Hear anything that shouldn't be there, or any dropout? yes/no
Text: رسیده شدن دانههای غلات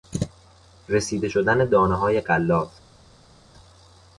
no